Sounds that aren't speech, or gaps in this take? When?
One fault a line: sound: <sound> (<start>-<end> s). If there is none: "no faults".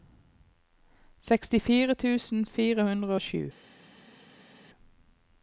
no faults